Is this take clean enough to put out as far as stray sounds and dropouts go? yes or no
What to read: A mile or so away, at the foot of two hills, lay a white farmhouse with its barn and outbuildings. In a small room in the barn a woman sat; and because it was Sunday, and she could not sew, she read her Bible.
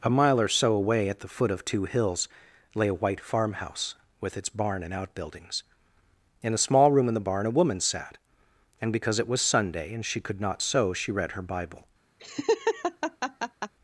no